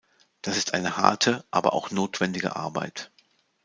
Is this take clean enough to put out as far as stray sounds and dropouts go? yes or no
yes